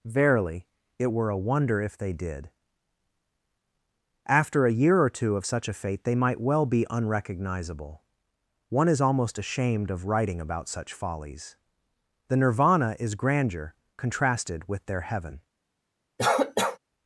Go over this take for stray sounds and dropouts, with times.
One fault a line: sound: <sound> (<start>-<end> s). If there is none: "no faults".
sound: cough (16.2-16.8 s)